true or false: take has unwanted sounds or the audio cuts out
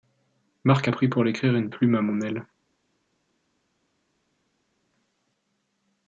false